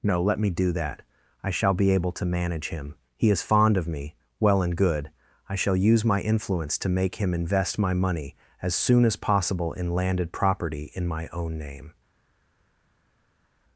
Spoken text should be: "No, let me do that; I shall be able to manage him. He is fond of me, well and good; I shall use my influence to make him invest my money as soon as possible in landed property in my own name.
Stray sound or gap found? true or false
false